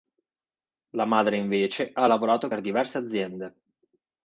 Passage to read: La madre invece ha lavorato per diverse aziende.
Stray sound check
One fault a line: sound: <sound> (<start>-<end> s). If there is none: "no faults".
no faults